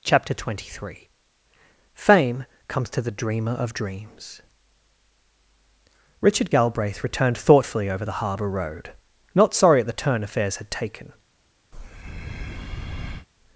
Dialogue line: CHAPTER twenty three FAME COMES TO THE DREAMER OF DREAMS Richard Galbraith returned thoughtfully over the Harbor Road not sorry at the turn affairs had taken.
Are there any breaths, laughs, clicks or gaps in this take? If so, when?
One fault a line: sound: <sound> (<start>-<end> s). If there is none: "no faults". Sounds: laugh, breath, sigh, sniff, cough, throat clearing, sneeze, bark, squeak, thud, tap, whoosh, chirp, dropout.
sound: breath (11.7-13.3 s)